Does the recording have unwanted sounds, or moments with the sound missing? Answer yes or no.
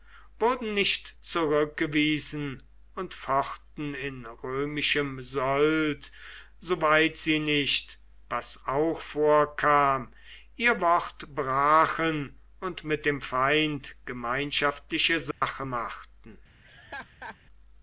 yes